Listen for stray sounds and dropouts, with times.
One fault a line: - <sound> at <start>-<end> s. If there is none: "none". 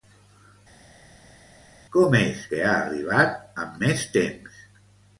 none